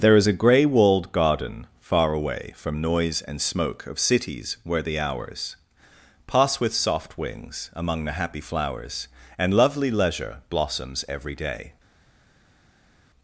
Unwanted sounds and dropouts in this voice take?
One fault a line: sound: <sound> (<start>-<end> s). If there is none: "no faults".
no faults